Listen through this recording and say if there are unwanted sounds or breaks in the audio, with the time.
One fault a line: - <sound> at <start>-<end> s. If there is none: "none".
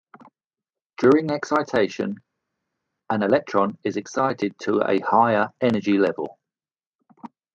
none